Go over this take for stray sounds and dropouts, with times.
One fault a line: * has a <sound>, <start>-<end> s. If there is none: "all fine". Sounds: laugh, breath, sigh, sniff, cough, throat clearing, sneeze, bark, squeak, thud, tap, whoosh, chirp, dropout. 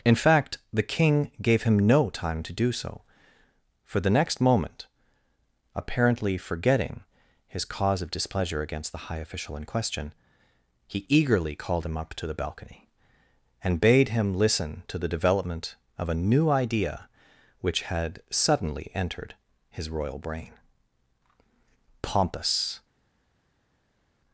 all fine